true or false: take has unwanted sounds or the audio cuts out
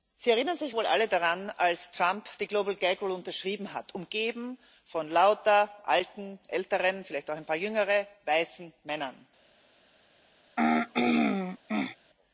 true